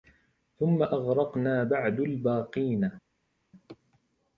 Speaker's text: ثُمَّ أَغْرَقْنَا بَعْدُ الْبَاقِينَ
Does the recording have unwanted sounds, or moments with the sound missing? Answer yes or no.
no